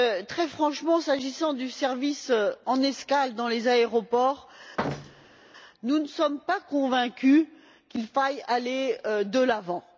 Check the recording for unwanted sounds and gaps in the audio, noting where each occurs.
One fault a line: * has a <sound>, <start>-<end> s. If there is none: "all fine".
* has a thud, 4.8-5.4 s